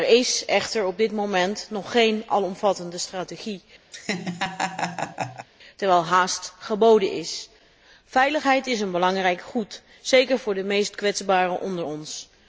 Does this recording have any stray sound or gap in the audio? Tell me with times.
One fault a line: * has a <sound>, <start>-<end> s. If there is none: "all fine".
* has a laugh, 3.9-5.5 s